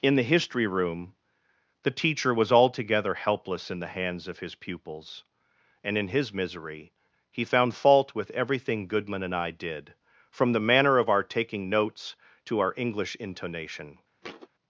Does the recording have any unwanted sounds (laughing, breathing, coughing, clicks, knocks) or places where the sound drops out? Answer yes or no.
yes